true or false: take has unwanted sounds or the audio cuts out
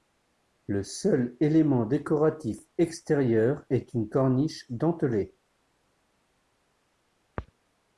false